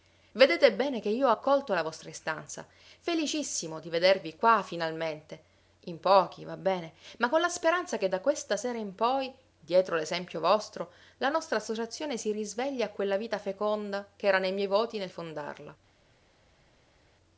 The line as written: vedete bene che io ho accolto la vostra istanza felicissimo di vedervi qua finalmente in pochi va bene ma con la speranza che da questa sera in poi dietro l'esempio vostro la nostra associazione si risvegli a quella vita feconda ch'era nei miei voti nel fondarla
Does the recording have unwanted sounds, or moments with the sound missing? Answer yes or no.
no